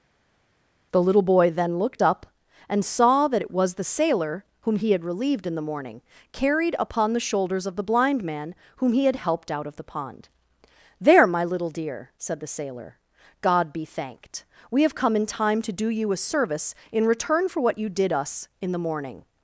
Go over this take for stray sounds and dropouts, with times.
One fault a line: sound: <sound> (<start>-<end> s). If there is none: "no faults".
no faults